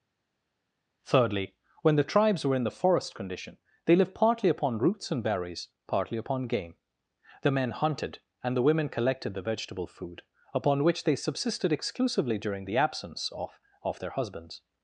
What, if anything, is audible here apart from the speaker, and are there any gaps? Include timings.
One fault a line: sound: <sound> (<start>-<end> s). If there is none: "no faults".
no faults